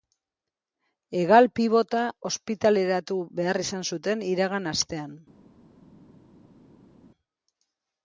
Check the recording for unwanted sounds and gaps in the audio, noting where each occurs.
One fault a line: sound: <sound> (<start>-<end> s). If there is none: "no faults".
no faults